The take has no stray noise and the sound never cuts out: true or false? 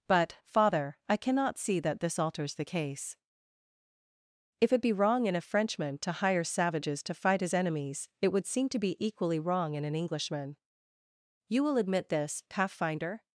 true